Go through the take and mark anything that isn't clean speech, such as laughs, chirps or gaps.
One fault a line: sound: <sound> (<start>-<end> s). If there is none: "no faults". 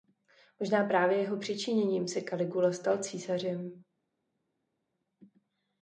no faults